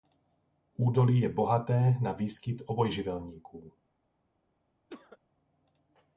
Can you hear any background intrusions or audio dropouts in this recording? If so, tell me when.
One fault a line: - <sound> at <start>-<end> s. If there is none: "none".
- cough at 4.9-5.2 s